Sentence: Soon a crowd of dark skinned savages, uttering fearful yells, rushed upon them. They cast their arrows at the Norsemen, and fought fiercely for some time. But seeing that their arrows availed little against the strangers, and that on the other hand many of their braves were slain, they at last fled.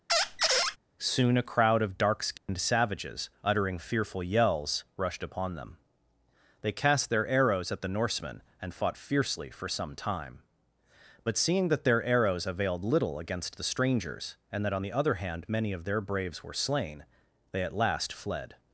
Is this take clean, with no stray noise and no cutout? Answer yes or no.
no